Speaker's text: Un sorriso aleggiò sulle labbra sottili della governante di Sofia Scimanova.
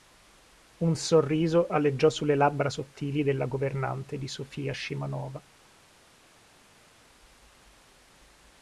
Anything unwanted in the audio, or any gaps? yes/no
no